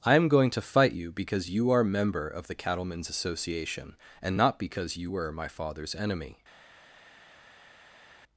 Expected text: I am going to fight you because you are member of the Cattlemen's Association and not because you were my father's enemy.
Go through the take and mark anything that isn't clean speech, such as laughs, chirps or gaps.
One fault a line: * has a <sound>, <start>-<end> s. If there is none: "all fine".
all fine